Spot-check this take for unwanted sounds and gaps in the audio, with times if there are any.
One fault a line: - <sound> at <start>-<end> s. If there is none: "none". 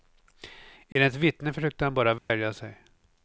- dropout at 0.9-1.0 s
- dropout at 2.2-2.3 s